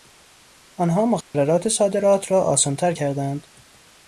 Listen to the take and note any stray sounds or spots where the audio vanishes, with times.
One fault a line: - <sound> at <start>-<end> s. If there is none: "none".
- dropout at 1.2-1.3 s